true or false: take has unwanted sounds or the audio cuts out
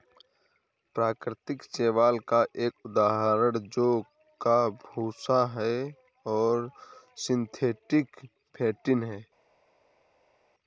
false